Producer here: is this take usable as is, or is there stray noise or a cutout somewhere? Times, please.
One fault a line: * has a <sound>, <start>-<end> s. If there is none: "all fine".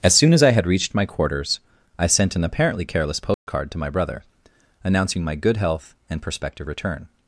* has a dropout, 3.3-3.5 s